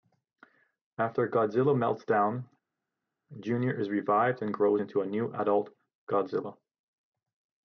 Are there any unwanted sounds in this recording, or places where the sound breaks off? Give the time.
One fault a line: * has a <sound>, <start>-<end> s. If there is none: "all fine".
all fine